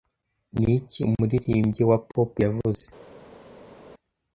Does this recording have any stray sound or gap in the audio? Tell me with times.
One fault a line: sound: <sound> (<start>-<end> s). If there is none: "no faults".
no faults